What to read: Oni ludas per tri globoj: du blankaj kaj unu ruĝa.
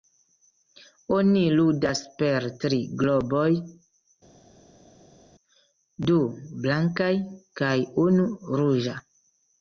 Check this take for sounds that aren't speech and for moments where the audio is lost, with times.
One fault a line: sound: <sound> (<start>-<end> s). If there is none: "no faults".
no faults